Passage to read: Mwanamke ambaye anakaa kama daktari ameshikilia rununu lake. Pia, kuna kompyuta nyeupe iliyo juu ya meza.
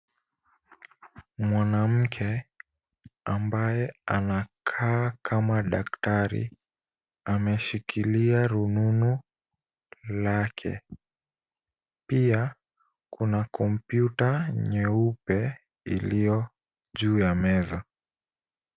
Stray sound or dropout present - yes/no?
no